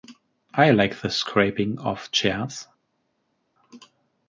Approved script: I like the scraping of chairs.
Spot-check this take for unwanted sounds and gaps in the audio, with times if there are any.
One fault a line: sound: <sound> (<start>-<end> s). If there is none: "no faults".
no faults